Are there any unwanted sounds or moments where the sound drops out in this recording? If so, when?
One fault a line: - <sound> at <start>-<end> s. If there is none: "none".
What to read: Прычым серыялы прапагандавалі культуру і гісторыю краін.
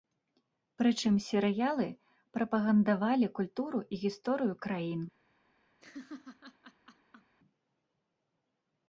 - laugh at 5.8-7.3 s